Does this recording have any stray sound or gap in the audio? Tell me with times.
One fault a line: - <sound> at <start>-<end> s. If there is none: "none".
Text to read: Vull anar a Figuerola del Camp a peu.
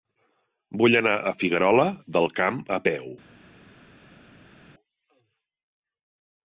none